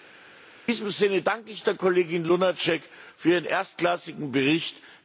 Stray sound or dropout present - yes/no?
no